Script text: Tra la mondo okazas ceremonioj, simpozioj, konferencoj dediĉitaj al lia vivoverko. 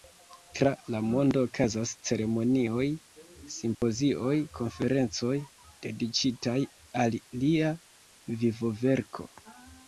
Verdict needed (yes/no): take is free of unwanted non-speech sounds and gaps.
no